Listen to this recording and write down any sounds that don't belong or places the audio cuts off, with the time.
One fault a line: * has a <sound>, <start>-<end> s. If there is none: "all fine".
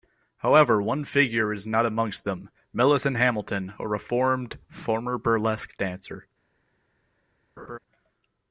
* has a laugh, 7.6-7.8 s